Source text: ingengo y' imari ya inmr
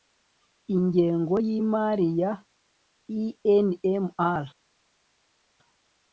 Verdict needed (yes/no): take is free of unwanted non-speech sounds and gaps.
yes